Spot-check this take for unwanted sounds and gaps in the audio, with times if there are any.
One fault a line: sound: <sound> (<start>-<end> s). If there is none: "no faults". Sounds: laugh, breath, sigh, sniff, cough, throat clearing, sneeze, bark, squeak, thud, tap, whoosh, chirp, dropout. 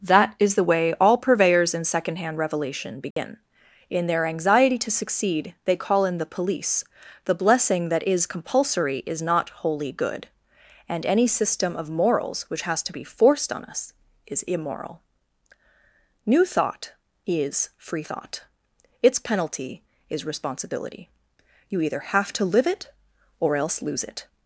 sound: dropout (3.1-3.2 s)